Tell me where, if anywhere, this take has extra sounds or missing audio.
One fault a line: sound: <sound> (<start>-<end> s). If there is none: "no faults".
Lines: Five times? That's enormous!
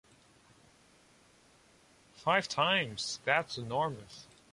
no faults